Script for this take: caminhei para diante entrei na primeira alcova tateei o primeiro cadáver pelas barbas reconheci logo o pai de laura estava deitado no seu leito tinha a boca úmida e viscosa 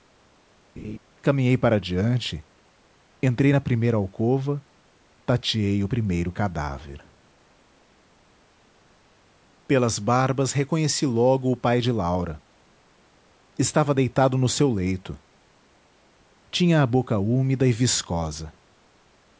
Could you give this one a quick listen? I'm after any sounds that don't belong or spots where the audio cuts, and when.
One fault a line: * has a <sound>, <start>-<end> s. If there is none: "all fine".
* has a laugh, 0.8-1.0 s